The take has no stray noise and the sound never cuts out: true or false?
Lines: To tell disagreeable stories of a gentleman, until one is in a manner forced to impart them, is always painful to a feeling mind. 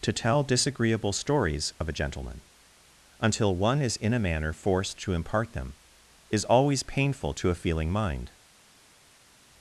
true